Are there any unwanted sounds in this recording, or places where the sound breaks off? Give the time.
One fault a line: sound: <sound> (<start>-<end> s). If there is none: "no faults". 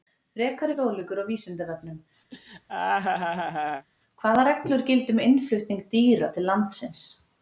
sound: laugh (2.3-3.9 s)